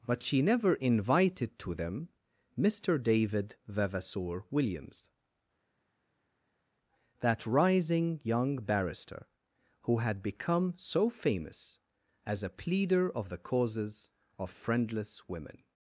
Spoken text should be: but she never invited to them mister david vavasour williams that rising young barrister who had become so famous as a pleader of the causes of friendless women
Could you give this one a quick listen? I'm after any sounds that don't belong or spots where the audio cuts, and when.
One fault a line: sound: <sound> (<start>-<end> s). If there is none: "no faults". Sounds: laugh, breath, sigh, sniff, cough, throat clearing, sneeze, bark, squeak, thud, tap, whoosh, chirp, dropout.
no faults